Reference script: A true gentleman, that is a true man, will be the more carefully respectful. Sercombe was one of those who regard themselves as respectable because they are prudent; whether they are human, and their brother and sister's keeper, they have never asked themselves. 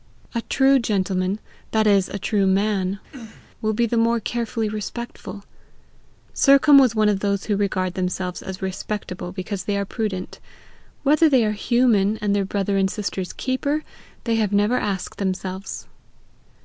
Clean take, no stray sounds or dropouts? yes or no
no